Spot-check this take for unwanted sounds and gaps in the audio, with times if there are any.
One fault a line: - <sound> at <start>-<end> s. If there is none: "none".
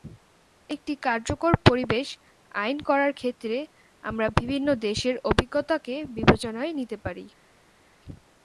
none